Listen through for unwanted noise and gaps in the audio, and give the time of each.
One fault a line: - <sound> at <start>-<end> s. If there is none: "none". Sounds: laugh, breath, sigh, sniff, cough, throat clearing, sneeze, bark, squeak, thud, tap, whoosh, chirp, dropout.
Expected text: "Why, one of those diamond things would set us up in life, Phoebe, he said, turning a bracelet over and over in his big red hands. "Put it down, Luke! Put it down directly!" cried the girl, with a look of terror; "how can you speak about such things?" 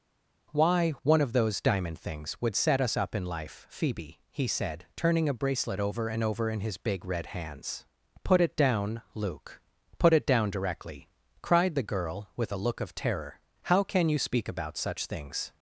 none